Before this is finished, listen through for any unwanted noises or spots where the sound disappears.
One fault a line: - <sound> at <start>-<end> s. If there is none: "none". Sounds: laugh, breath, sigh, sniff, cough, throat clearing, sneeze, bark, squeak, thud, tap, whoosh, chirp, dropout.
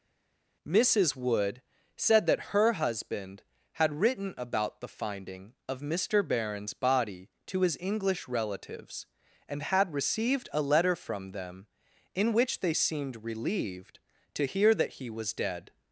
none